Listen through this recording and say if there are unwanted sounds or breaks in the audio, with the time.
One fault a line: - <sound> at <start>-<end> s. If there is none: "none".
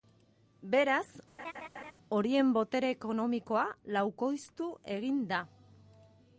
- laugh at 1.4-1.9 s